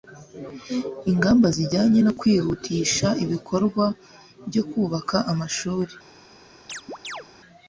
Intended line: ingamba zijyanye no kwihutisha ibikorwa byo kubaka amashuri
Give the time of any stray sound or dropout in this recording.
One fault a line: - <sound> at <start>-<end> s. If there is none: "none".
- chirp at 6.7-7.3 s